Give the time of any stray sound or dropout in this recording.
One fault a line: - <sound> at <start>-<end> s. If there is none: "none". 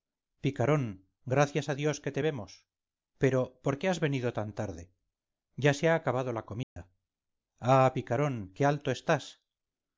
- dropout at 6.6-6.8 s